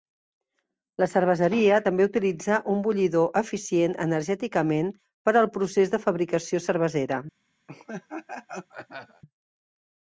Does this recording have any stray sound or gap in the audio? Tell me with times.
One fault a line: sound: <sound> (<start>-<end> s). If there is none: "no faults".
sound: laugh (7.7-9.2 s)